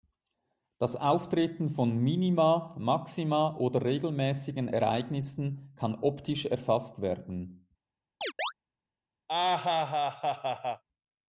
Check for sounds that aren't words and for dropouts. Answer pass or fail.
fail